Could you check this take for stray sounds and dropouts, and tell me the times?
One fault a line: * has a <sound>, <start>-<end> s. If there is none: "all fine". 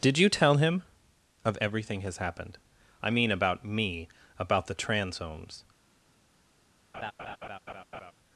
* has a laugh, 6.9-8.1 s